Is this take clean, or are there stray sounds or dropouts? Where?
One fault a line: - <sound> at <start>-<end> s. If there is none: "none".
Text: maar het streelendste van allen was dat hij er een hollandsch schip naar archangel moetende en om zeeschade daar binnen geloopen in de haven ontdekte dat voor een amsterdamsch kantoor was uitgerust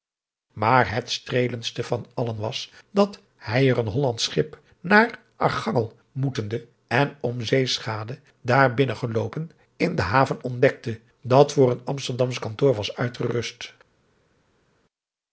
none